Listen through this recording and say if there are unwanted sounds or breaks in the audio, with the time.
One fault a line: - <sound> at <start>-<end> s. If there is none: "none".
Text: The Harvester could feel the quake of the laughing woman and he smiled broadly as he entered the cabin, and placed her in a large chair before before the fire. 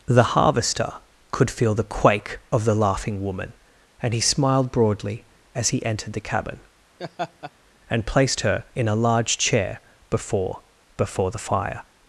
- laugh at 7.0-7.5 s